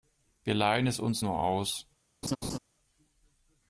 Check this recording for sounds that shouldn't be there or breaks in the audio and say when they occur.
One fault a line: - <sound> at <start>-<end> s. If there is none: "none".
- laugh at 2.2-2.6 s